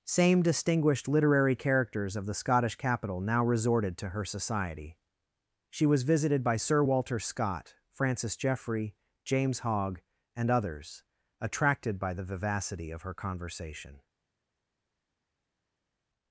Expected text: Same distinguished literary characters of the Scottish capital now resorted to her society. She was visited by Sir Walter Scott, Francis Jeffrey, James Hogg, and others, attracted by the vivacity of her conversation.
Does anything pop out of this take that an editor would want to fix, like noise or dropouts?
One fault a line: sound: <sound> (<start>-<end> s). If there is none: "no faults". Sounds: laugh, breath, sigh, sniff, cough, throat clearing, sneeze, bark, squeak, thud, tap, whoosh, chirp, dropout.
no faults